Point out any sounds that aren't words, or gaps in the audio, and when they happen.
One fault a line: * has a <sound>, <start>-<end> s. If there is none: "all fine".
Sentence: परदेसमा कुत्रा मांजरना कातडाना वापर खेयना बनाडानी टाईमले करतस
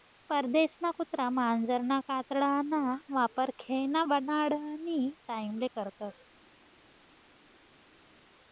all fine